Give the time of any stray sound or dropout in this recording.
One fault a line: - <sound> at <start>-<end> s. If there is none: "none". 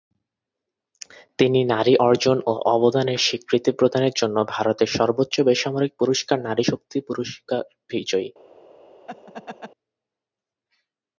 - laugh at 9.1-9.7 s